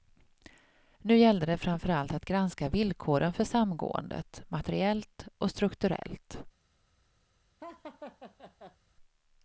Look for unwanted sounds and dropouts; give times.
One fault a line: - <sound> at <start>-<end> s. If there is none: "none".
- laugh at 7.6-8.8 s